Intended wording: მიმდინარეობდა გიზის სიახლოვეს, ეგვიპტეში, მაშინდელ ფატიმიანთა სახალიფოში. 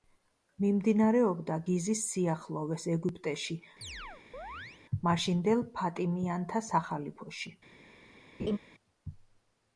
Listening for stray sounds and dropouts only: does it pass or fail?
fail